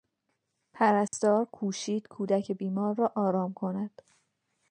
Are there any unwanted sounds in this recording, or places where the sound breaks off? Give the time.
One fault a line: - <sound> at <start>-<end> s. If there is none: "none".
- dropout at 1.1-1.1 s